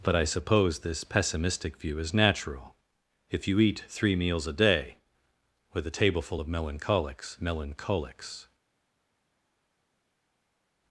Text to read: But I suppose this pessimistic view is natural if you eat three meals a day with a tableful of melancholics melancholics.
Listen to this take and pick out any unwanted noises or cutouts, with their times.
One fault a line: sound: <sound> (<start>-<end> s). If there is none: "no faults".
no faults